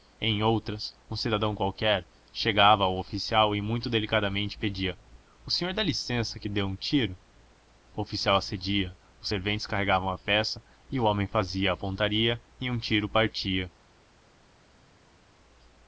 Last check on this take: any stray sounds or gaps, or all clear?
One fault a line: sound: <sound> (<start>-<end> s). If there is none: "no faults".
no faults